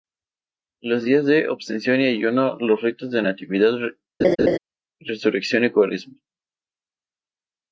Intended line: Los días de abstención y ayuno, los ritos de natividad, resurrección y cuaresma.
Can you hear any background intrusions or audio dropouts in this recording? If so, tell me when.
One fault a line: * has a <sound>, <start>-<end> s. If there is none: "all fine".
* has a laugh, 4.2-4.6 s